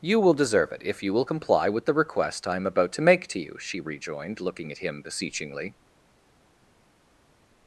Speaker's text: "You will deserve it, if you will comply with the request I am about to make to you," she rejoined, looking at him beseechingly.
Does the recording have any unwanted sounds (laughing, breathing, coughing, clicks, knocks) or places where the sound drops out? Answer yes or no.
no